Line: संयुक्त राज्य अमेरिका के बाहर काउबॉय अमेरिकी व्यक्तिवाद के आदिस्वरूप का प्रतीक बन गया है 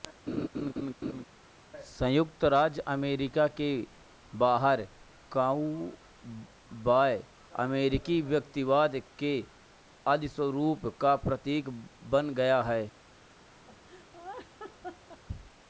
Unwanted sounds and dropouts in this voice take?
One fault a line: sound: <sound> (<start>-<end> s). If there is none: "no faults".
sound: laugh (0.3-1.3 s)
sound: laugh (13.7-15.2 s)